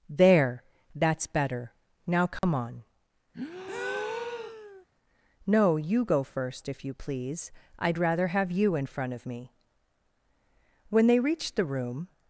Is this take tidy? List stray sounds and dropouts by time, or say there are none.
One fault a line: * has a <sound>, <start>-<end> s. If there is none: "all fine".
* has a dropout, 2.4-2.4 s
* has a breath, 3.3-4.9 s